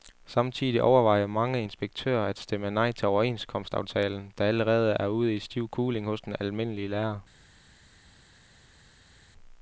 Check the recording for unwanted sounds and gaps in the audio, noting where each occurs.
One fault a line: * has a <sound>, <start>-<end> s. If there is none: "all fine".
all fine